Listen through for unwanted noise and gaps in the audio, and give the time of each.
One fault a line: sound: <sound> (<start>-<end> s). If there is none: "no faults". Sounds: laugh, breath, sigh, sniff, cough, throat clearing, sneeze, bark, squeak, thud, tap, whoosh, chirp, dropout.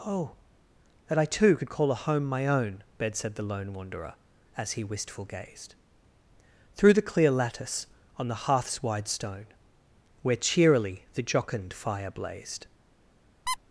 sound: squeak (13.5-13.6 s)